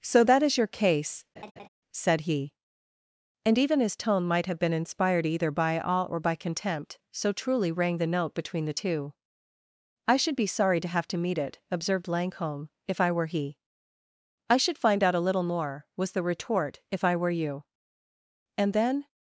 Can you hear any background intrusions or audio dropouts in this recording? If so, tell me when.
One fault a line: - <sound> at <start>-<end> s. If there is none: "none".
- laugh at 1.4-1.7 s